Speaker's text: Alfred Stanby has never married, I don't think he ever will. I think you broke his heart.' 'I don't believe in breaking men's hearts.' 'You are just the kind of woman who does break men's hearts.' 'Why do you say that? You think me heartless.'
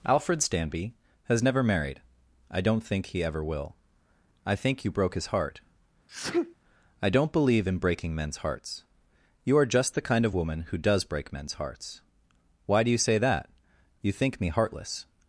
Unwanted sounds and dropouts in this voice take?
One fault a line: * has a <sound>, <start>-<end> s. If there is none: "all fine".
* has a sneeze, 6.1-6.5 s